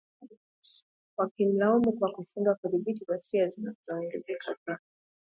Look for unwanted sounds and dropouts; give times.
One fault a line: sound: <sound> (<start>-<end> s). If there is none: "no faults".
no faults